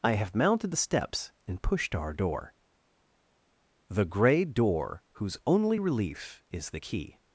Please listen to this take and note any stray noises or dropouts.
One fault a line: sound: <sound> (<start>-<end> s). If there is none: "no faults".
no faults